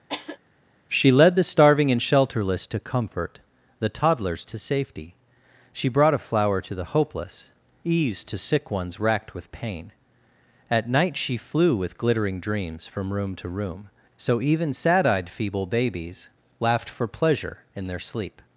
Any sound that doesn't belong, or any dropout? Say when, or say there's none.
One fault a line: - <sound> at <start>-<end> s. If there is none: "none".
- cough at 0.1-0.4 s